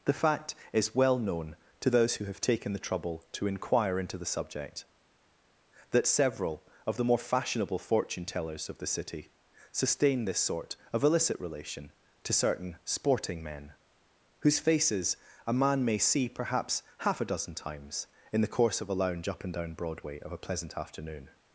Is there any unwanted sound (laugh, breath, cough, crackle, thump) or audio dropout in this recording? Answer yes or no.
no